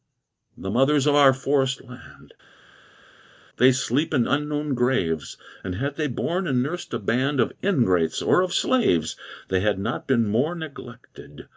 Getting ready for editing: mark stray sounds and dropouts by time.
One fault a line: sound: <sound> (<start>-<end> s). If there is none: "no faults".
no faults